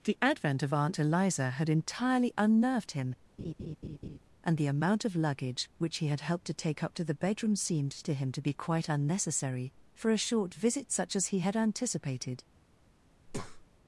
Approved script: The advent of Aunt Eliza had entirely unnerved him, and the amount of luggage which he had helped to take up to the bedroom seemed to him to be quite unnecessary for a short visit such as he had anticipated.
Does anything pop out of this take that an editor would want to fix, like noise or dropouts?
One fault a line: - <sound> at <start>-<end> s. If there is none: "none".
- laugh at 3.4-4.2 s
- breath at 13.3-13.7 s